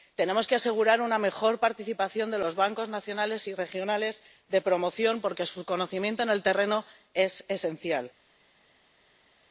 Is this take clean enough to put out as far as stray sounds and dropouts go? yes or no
yes